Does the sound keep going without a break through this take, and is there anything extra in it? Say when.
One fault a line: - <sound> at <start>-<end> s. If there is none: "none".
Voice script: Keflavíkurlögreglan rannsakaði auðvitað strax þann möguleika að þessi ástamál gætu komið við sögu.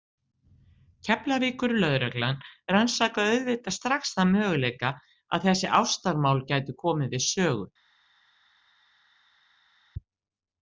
none